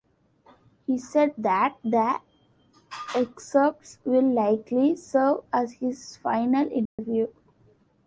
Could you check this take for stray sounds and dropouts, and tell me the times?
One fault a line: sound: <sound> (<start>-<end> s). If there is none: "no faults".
sound: dropout (6.9-7.0 s)